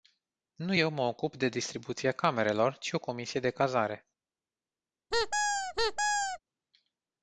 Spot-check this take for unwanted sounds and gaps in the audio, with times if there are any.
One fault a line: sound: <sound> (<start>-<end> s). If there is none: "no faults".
sound: squeak (5.1-6.4 s)